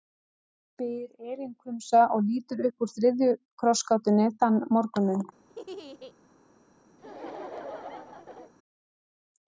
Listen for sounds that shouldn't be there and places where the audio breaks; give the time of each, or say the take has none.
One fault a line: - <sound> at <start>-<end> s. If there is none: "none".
- laugh at 5.5-6.1 s
- laugh at 7.0-8.5 s